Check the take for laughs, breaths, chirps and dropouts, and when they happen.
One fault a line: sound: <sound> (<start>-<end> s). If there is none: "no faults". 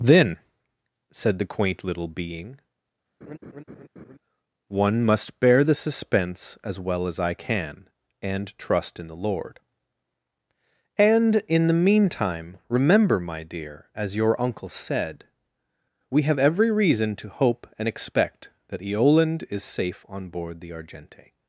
sound: laugh (3.2-4.2 s)